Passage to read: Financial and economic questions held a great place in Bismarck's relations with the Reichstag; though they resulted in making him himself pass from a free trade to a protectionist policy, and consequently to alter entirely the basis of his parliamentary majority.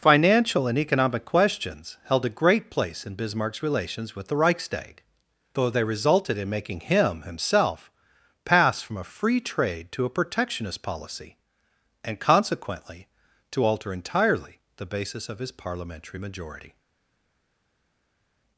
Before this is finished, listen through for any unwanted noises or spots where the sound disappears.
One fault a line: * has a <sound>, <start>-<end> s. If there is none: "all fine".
all fine